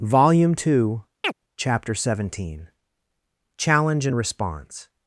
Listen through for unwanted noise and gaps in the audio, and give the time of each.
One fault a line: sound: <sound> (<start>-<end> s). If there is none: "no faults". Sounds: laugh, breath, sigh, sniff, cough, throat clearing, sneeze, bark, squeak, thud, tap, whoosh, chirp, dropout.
sound: chirp (1.2-1.3 s)